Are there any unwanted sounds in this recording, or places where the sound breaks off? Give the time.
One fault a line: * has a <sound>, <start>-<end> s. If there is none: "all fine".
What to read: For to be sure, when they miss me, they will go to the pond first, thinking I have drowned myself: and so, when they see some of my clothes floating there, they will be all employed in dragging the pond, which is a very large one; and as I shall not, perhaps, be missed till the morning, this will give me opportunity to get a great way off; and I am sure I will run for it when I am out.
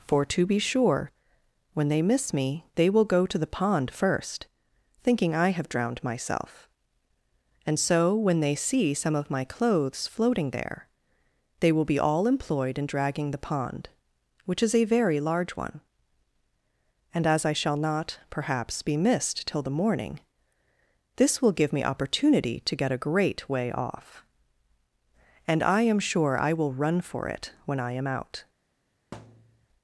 * has a thud, 29.1-29.7 s